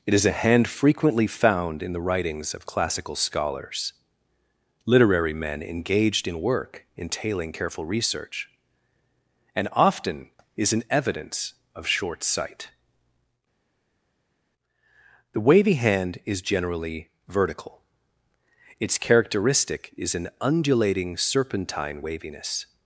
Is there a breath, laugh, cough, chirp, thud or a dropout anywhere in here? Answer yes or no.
no